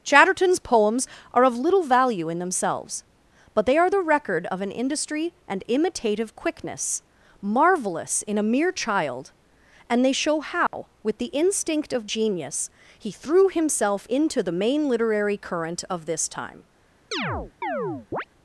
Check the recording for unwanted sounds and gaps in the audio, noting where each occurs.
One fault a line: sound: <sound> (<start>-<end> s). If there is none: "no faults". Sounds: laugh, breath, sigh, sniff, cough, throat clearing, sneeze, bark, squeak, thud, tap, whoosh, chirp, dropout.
sound: dropout (10.7-10.7 s)
sound: chirp (17.1-18.2 s)